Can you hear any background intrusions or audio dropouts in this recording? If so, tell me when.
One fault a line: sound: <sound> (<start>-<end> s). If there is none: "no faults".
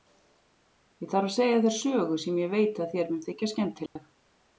sound: dropout (3.9-4.0 s)